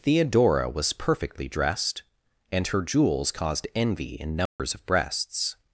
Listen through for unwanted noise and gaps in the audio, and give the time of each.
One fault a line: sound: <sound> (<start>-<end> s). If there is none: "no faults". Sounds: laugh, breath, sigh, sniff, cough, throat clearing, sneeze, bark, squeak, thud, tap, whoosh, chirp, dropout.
sound: dropout (4.5-4.6 s)